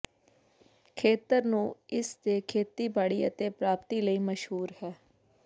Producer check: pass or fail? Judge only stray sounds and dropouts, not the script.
pass